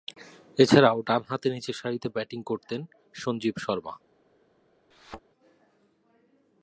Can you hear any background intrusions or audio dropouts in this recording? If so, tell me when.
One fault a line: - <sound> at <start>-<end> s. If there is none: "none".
- thud at 4.9-5.2 s